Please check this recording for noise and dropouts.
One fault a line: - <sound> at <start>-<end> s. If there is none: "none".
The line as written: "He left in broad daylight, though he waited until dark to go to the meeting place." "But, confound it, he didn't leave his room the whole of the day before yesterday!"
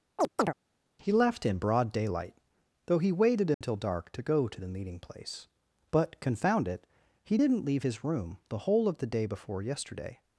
- chirp at 0.2-0.5 s
- dropout at 3.5-3.6 s